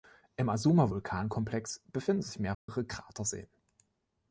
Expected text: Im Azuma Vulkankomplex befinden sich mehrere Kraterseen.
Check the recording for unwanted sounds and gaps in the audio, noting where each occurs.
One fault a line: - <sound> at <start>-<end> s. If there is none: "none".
- dropout at 2.5-2.7 s